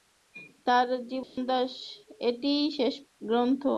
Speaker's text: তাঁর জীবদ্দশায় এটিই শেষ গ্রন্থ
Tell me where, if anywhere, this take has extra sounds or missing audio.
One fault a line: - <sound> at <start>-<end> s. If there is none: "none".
- dropout at 1.2-1.4 s